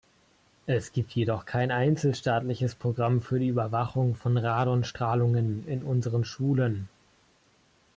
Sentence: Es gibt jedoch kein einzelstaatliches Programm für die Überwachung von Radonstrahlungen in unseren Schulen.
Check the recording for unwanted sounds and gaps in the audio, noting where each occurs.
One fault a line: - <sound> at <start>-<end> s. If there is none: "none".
none